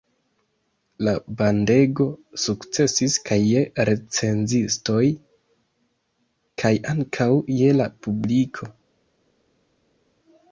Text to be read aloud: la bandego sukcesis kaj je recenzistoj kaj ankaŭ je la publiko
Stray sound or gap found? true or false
false